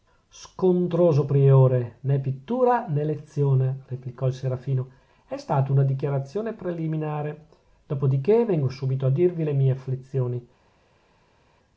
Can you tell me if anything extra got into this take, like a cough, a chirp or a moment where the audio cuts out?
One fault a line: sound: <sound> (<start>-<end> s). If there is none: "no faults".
no faults